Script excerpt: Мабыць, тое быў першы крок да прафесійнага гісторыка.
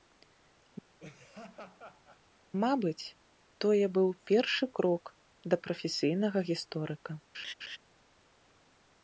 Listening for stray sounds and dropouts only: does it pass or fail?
fail